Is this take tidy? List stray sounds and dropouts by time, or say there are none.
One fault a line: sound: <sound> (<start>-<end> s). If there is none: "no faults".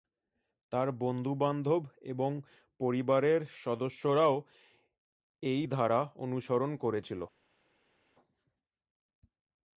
no faults